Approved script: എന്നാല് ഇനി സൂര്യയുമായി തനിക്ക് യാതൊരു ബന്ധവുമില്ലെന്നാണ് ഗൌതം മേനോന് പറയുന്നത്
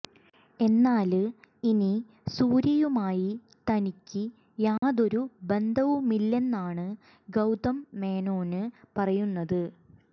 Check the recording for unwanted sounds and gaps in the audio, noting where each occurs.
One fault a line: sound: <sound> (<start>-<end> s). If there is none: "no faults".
sound: dropout (4.8-4.8 s)